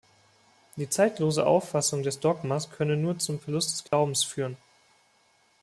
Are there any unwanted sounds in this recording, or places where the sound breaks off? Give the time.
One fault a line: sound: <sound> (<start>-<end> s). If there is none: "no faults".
sound: dropout (3.9-3.9 s)